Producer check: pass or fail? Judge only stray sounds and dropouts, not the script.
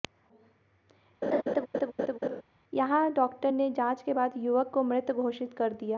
fail